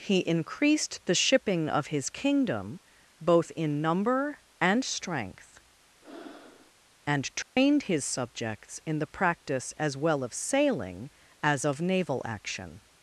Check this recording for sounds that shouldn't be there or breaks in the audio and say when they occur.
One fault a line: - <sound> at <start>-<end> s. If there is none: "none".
- breath at 6.0-6.7 s
- dropout at 7.4-7.6 s